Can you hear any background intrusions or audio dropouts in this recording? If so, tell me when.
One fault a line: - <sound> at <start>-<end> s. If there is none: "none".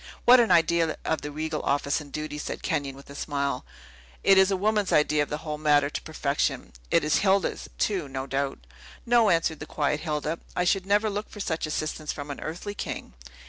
none